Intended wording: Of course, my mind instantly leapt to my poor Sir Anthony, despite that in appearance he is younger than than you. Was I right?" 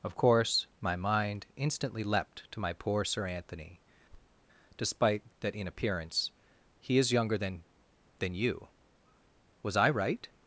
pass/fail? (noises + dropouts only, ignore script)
fail